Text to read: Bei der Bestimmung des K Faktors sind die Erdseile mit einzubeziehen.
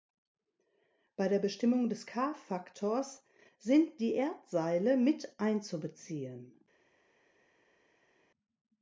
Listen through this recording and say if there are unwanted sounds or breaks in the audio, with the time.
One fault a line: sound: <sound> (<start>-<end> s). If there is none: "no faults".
no faults